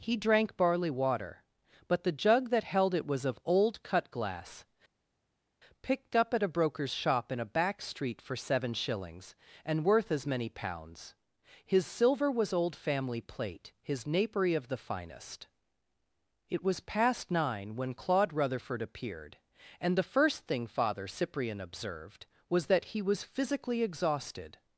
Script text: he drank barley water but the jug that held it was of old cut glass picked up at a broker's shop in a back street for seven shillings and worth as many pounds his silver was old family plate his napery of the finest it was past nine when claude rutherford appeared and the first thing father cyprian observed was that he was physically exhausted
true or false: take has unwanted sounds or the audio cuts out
false